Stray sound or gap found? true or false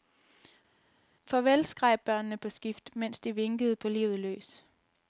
false